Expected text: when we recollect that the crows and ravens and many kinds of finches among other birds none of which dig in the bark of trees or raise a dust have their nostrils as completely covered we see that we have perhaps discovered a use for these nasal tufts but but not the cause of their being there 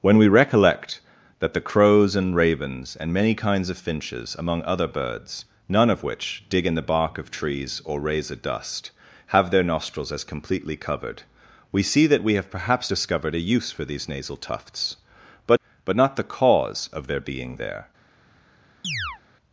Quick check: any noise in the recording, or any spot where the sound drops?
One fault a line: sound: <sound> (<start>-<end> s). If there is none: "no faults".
sound: chirp (18.8-19.2 s)